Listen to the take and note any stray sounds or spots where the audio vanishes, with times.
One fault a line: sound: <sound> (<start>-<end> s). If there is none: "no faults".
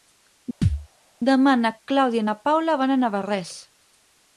sound: thud (0.6-0.9 s)